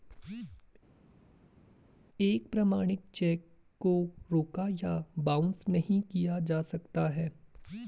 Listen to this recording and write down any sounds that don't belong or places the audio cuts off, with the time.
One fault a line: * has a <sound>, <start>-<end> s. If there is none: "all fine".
all fine